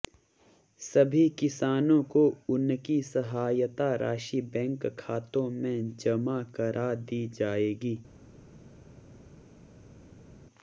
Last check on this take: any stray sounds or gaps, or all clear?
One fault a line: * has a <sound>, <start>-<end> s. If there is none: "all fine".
all fine